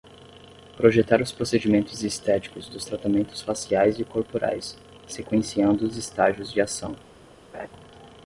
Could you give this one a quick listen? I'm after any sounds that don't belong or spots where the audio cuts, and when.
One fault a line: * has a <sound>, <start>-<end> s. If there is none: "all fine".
* has a laugh, 7.5-7.7 s